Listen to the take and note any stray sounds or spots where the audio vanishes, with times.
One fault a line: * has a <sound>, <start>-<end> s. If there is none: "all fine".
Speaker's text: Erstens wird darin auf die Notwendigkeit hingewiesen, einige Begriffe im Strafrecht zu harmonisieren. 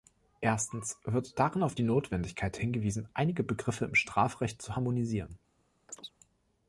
* has a chirp, 5.9-6.1 s